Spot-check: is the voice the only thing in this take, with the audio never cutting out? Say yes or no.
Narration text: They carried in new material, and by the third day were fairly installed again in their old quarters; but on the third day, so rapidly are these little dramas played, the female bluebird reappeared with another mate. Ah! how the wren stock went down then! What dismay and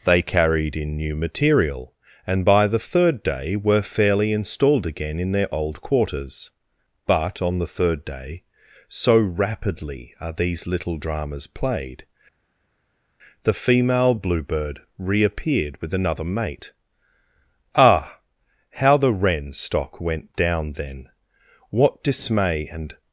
yes